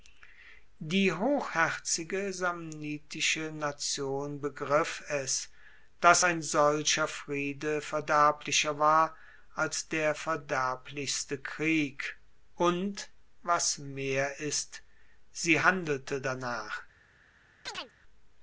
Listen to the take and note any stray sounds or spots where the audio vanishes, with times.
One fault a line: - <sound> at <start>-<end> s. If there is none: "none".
- chirp at 17.7-17.9 s